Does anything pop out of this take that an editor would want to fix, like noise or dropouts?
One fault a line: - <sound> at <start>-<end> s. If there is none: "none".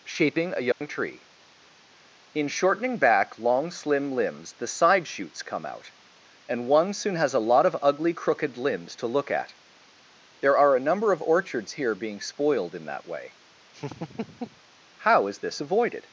- dropout at 0.7-0.8 s
- laugh at 13.7-14.6 s